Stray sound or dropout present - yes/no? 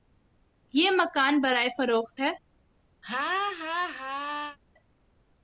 yes